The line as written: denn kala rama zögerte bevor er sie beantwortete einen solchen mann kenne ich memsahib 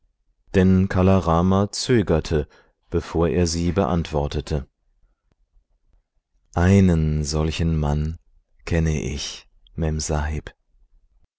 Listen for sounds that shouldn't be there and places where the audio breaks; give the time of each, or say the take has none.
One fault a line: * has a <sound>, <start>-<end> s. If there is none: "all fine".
all fine